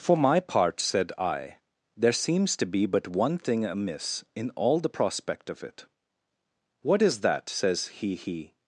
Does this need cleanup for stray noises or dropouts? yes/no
no